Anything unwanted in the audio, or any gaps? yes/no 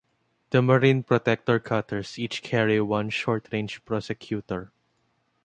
no